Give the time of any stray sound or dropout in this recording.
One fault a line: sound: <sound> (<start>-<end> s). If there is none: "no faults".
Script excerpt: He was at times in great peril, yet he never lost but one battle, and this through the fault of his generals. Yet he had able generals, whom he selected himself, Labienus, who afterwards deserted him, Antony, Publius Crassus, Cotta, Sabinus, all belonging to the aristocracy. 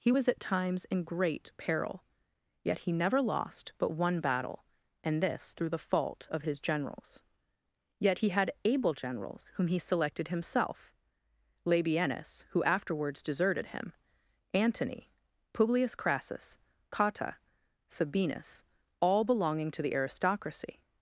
no faults